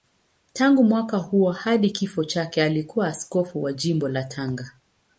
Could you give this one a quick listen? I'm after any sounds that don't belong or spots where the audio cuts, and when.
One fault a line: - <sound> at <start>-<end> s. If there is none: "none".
none